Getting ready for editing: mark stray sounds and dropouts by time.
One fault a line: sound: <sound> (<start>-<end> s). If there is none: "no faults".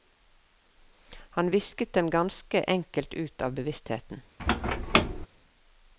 sound: squeak (4.4-5.3 s)